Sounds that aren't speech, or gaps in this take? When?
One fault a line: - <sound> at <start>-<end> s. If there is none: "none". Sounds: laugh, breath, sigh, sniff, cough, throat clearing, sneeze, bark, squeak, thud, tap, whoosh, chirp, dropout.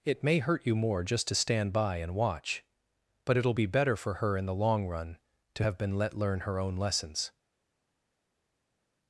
none